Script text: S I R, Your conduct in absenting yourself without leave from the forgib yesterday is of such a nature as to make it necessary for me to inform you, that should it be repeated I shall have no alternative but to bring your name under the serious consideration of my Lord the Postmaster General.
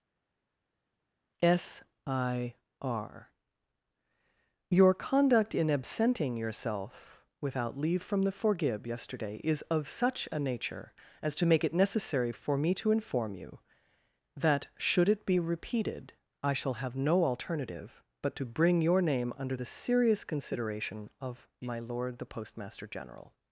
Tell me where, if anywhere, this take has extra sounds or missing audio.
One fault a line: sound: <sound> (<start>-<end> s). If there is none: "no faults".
no faults